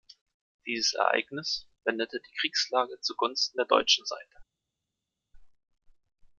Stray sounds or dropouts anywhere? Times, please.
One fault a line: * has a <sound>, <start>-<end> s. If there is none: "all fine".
all fine